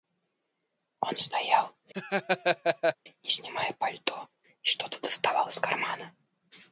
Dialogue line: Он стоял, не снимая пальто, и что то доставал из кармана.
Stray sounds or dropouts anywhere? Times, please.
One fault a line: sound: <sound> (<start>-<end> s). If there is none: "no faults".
sound: laugh (1.9-3.0 s)